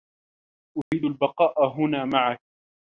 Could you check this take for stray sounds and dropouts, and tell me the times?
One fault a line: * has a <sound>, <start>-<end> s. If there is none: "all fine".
* has a dropout, 0.8-0.9 s